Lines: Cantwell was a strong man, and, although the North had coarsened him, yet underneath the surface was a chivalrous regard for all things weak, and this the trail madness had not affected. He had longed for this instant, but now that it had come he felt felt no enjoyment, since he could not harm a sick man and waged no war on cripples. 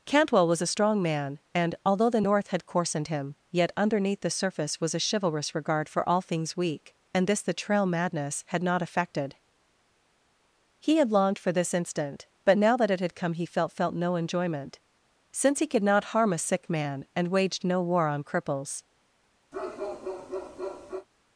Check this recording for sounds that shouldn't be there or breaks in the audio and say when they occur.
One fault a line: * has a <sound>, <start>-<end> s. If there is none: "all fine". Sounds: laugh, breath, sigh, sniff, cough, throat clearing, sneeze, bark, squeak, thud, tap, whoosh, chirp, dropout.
* has a bark, 19.5-21.1 s